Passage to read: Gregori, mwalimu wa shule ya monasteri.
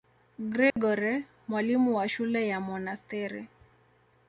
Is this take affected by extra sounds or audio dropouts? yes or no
yes